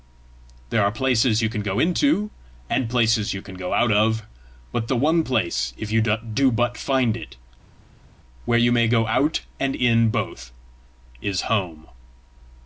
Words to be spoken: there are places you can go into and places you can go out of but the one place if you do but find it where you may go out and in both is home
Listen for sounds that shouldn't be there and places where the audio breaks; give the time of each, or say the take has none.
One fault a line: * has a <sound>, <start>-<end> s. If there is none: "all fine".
all fine